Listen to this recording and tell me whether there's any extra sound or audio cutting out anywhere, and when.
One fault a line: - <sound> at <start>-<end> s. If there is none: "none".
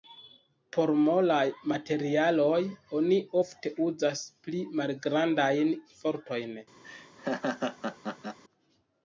- laugh at 6.8-8.4 s